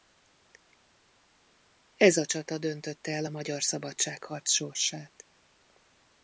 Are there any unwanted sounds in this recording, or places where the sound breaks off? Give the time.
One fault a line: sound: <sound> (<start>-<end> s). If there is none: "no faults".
no faults